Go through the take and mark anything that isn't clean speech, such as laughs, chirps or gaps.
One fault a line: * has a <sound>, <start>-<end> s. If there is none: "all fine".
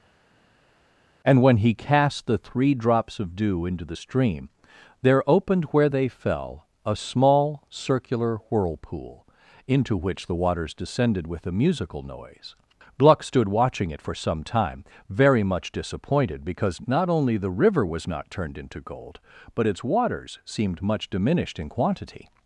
all fine